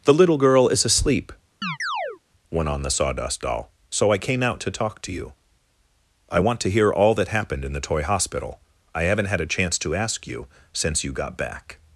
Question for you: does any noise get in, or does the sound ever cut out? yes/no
yes